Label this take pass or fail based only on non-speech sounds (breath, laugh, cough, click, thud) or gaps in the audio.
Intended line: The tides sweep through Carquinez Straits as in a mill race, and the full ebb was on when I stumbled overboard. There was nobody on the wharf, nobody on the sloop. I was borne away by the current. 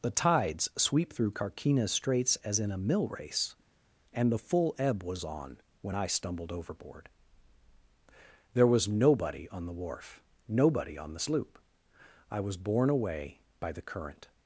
pass